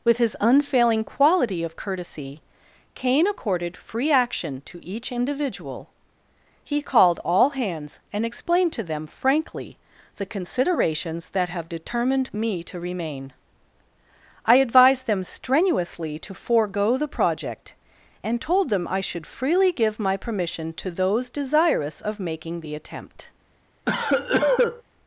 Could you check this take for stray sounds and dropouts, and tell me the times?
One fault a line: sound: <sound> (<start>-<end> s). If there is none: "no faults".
sound: cough (23.9-24.8 s)